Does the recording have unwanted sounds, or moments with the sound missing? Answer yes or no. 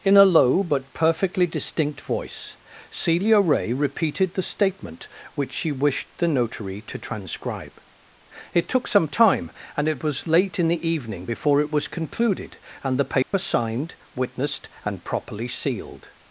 yes